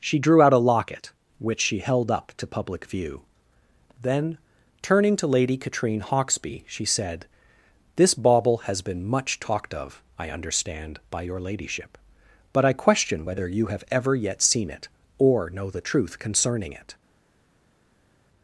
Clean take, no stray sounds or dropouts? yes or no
yes